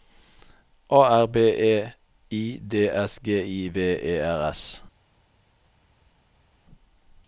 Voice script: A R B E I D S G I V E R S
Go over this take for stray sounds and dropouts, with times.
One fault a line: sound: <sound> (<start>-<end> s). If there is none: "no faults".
no faults